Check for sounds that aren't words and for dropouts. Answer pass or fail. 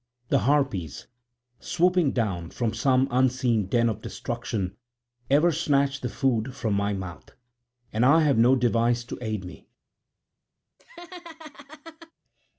fail